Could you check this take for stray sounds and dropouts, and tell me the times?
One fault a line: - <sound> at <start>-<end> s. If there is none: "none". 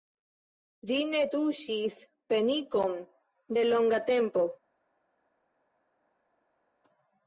none